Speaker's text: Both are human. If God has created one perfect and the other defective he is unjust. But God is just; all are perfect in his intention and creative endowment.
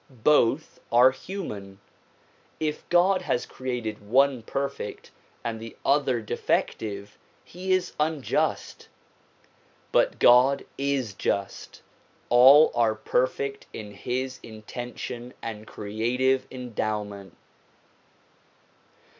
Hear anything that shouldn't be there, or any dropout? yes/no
no